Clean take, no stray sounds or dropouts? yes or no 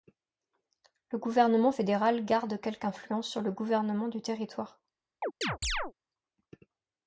no